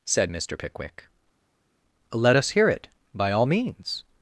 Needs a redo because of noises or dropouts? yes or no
no